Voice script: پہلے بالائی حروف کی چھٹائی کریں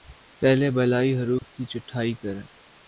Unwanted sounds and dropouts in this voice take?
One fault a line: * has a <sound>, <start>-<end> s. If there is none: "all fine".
* has a dropout, 1.4-1.4 s